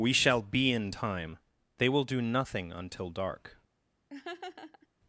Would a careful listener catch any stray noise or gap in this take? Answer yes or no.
yes